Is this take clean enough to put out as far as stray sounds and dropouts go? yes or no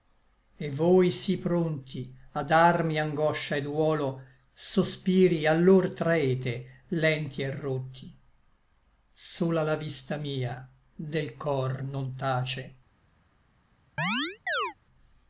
no